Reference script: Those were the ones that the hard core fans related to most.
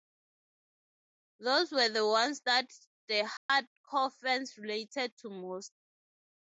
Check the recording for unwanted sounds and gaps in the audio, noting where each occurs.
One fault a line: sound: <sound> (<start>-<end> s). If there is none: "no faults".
sound: dropout (3.4-3.5 s)